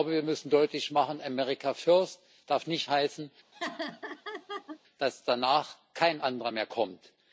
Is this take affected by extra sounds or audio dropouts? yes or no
yes